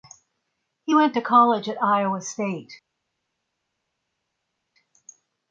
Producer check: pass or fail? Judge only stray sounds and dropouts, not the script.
pass